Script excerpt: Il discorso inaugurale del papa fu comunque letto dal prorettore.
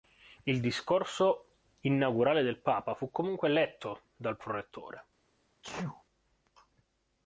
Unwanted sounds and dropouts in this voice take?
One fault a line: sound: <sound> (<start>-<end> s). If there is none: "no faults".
sound: sneeze (5.6-6.0 s)